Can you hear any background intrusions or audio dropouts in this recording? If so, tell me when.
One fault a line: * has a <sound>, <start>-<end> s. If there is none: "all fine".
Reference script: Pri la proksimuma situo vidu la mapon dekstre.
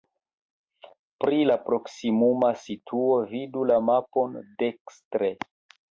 all fine